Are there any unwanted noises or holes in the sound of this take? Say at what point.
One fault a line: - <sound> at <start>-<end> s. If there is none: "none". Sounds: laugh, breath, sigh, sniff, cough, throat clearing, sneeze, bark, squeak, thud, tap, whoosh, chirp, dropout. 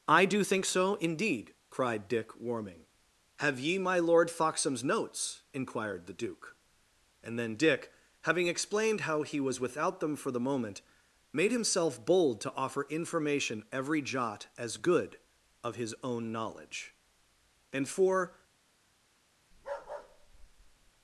- bark at 19.5-20.9 s